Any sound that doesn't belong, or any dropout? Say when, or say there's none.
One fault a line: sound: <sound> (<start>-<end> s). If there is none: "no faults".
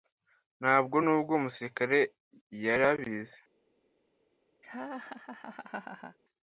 sound: laugh (4.6-6.2 s)